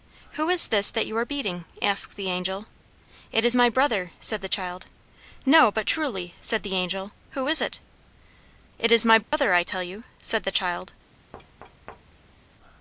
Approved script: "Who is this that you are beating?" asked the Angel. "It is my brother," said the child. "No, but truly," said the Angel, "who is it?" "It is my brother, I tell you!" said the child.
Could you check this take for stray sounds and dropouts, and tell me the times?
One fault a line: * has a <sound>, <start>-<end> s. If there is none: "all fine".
* has a dropout, 9.2-9.3 s
* has a thud, 11.3-12.4 s